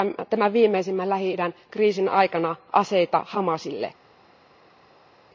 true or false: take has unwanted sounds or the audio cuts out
false